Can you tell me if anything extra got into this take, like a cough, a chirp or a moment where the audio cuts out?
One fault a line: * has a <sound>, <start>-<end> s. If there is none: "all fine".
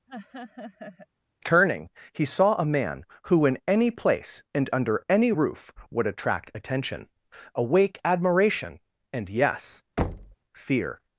* has a laugh, 0.1-1.1 s
* has a thud, 10.0-10.4 s